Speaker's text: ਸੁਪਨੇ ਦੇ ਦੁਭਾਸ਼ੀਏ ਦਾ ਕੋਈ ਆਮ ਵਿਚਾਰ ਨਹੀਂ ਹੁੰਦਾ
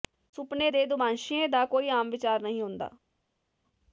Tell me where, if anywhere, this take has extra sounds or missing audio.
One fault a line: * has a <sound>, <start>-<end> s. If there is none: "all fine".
all fine